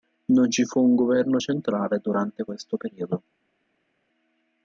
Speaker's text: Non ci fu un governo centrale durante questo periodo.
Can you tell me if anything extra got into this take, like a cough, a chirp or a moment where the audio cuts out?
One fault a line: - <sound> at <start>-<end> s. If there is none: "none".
none